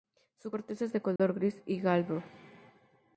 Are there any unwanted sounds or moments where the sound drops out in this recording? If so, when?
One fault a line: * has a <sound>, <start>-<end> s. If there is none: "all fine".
* has a dropout, 1.2-1.2 s